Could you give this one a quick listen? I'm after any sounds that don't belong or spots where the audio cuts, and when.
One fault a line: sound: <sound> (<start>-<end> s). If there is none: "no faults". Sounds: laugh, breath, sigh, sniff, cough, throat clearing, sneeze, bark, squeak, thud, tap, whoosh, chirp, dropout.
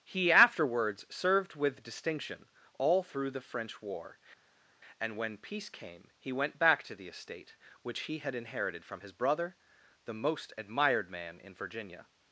no faults